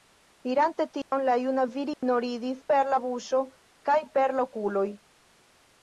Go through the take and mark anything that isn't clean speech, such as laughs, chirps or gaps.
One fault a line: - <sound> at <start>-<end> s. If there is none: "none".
- dropout at 1.0-1.1 s
- dropout at 1.9-2.0 s